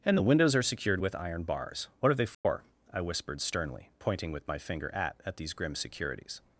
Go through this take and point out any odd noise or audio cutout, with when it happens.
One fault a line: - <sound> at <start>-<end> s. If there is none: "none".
- dropout at 2.3-2.4 s